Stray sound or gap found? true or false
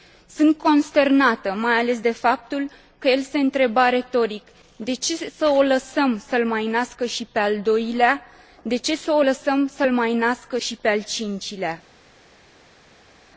false